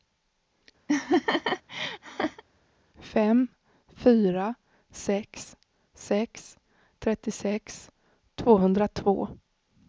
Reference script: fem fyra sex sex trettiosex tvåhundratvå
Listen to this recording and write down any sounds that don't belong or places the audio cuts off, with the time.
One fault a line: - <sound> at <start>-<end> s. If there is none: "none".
- laugh at 0.9-2.4 s